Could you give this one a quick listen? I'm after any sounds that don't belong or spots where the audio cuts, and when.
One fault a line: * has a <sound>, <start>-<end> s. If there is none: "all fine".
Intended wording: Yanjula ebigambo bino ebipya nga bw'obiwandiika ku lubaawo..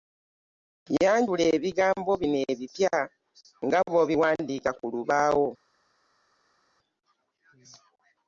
all fine